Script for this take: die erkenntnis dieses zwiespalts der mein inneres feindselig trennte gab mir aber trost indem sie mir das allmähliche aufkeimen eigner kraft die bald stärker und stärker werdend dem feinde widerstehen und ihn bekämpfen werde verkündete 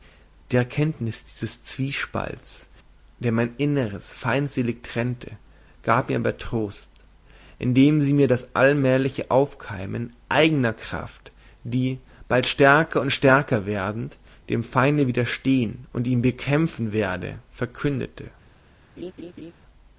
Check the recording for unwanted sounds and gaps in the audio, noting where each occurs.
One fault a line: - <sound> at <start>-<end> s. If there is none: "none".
- laugh at 19.0-19.5 s